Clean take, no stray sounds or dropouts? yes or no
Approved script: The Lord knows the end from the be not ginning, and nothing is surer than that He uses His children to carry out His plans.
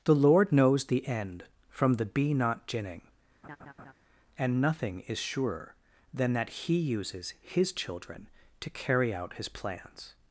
no